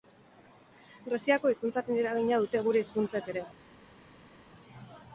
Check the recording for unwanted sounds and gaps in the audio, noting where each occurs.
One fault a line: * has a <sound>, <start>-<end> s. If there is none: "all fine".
all fine